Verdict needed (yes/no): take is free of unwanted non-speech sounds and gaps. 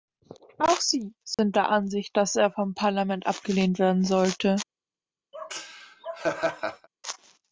no